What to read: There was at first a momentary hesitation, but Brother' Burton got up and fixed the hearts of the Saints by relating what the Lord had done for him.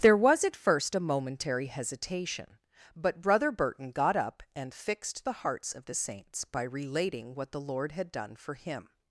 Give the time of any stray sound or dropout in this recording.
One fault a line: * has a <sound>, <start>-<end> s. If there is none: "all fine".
all fine